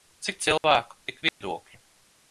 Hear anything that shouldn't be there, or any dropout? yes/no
yes